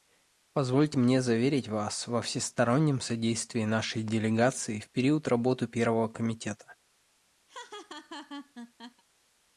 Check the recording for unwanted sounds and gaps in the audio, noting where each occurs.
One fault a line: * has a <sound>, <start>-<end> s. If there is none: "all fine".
* has a laugh, 7.5-9.0 s